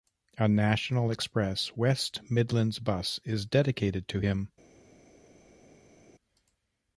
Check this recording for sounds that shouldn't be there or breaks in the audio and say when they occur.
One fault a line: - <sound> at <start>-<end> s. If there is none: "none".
none